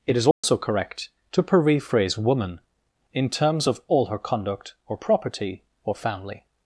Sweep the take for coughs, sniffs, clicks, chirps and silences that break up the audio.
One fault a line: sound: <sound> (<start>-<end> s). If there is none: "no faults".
sound: dropout (0.3-0.4 s)